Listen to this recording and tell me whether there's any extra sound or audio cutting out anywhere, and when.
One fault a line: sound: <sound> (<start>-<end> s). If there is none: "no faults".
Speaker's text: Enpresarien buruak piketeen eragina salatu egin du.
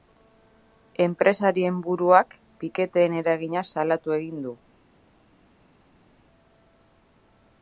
no faults